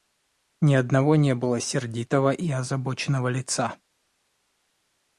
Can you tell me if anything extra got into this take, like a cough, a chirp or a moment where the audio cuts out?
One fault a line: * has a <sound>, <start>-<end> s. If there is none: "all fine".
all fine